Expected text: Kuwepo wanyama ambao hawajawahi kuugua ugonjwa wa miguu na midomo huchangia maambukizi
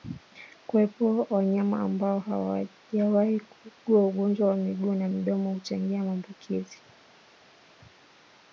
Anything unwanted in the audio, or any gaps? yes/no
no